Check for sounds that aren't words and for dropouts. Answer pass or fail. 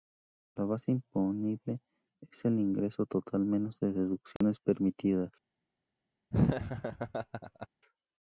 fail